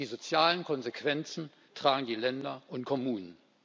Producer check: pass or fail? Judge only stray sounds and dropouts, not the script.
pass